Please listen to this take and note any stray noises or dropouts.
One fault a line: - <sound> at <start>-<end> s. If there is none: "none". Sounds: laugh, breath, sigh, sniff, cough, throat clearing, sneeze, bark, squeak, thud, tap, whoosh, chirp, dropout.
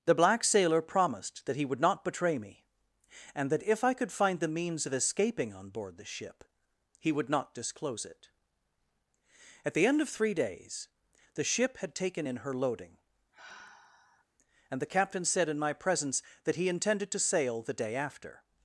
- sigh at 13.3-14.3 s